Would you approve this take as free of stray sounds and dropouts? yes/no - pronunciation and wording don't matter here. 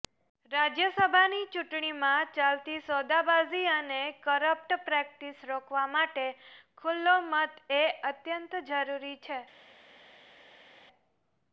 yes